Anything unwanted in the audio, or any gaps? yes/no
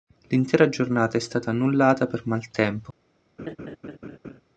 yes